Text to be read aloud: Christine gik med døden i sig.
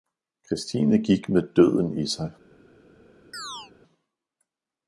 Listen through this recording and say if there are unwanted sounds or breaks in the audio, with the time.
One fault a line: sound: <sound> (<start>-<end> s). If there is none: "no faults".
sound: chirp (3.3-3.7 s)